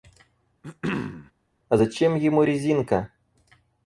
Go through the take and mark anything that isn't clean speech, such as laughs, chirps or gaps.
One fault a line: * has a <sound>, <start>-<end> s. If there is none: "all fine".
* has a throat clearing, 0.6-1.3 s